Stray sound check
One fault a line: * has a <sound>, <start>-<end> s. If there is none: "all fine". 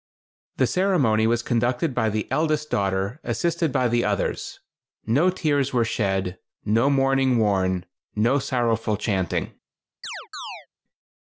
* has a chirp, 10.0-10.7 s